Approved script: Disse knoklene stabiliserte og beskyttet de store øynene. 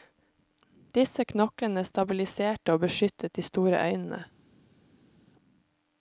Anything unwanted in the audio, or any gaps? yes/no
no